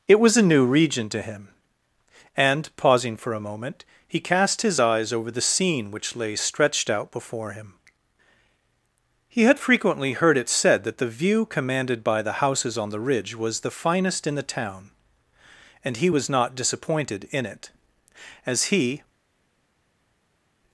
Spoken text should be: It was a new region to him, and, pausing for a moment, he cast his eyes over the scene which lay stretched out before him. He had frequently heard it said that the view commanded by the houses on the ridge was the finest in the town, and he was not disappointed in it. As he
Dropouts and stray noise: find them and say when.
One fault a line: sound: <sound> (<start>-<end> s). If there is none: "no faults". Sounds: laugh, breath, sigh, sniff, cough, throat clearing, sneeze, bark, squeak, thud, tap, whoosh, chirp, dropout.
no faults